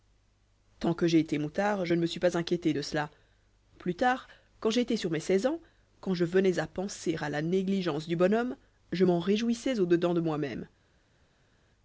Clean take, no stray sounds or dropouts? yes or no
yes